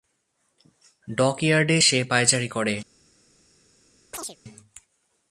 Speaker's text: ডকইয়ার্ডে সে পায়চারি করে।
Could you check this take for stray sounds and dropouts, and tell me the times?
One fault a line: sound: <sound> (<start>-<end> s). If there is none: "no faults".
sound: chirp (4.1-4.4 s)